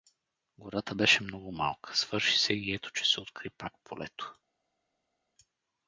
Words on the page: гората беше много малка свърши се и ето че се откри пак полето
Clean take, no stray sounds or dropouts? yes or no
yes